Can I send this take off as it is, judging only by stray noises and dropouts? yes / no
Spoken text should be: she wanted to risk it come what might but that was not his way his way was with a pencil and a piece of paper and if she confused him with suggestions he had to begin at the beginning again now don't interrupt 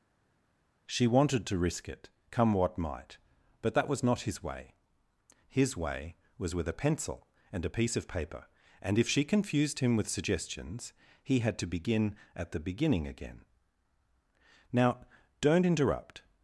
yes